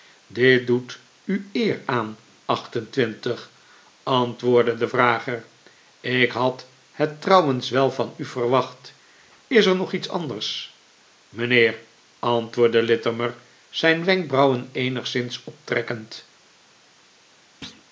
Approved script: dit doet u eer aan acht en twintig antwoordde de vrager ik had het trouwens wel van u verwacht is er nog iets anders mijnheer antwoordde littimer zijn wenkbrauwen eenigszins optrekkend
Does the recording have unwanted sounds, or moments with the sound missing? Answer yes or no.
yes